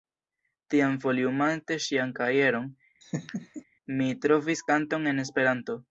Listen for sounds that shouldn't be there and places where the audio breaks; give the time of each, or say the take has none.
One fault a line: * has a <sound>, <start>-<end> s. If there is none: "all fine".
* has a laugh, 3.0-3.6 s